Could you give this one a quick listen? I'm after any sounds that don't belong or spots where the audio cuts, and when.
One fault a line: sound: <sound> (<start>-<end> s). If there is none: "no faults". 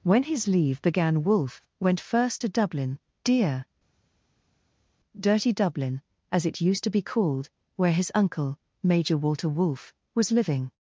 no faults